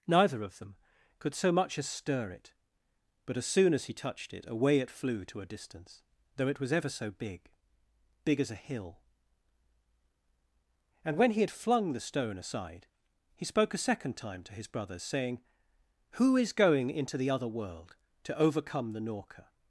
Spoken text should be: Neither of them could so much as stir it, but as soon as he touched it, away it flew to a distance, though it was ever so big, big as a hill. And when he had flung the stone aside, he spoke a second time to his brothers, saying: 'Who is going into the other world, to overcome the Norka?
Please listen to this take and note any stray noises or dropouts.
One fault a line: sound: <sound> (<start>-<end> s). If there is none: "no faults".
no faults